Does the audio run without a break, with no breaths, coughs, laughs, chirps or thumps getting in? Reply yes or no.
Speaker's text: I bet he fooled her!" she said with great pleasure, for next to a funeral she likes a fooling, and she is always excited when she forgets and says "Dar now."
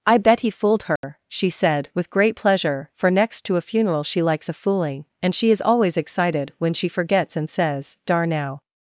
no